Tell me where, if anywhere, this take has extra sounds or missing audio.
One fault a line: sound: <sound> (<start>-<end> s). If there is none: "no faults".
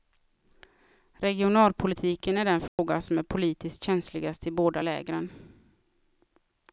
sound: dropout (2.7-2.8 s)